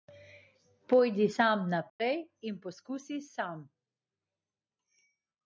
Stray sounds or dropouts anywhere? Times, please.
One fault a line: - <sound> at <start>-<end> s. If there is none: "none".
- dropout at 1.9-2.0 s